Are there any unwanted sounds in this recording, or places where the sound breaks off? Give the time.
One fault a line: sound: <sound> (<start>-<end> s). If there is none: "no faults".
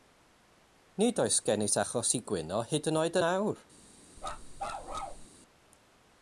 sound: bark (4.2-5.3 s)